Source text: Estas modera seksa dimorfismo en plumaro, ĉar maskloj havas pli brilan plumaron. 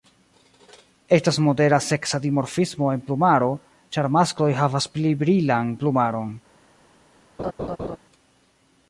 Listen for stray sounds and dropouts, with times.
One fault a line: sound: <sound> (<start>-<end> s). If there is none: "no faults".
sound: laugh (7.4-8.0 s)